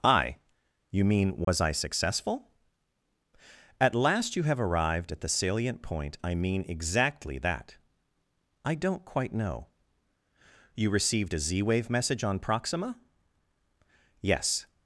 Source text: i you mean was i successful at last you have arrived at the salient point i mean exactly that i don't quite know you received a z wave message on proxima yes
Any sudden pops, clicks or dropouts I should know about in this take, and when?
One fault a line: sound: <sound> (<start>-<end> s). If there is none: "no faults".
sound: dropout (1.4-1.5 s)